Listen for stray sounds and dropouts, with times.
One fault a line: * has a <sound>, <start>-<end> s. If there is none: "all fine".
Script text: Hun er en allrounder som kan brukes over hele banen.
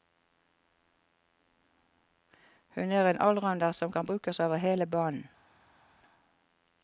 all fine